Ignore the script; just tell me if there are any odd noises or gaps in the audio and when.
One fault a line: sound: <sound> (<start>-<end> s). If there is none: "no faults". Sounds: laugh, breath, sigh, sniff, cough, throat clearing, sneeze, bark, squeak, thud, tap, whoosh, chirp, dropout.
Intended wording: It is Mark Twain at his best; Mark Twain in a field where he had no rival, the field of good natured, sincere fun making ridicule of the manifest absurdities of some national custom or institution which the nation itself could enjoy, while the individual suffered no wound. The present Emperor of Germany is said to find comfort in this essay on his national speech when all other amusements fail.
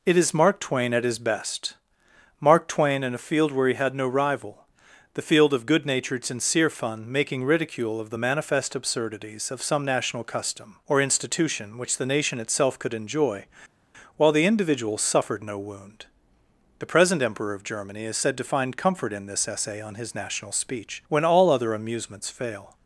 no faults